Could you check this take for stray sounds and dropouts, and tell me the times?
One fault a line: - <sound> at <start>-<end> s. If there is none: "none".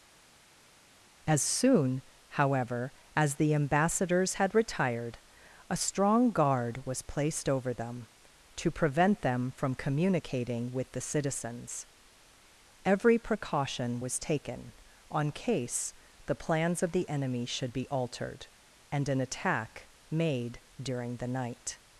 none